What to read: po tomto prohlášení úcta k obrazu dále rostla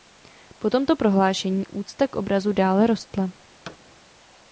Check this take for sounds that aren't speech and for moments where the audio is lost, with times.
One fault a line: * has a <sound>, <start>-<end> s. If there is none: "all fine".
* has a thud, 3.7-3.8 s